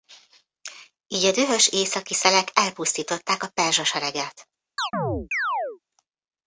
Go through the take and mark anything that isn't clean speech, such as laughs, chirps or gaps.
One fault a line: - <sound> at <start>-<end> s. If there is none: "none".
- chirp at 4.8-5.8 s